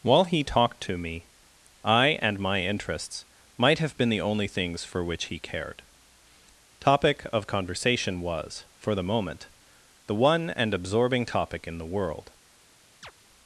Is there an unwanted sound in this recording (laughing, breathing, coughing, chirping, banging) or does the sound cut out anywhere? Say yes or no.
yes